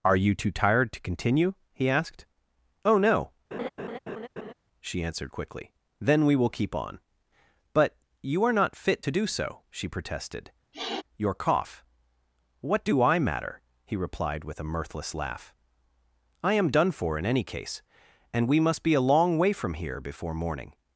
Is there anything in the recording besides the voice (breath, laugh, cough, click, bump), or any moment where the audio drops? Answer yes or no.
yes